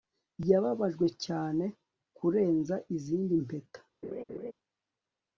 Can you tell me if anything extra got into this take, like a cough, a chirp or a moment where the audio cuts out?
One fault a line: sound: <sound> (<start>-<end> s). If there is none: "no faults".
sound: laugh (4.0-4.5 s)